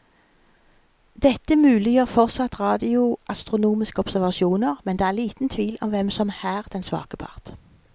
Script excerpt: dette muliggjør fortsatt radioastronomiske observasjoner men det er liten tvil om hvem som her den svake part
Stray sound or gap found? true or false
false